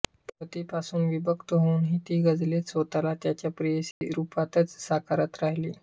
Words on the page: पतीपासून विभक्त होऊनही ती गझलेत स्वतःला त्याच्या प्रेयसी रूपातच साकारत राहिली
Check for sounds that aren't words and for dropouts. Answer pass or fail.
fail